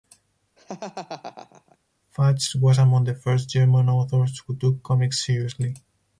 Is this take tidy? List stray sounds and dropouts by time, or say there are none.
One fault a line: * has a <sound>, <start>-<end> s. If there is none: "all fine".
* has a laugh, 0.6-1.8 s